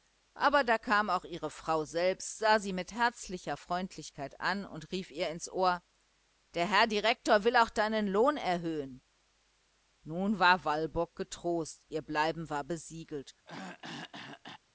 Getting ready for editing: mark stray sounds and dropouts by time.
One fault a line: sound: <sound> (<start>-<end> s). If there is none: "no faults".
sound: throat clearing (13.5-14.6 s)